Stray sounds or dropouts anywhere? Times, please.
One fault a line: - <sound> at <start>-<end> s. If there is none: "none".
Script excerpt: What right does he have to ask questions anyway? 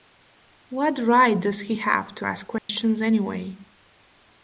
- dropout at 2.6-2.7 s